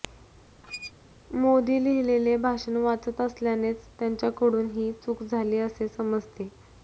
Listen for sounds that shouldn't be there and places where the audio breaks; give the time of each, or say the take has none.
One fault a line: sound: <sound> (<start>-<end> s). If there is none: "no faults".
sound: squeak (0.6-0.9 s)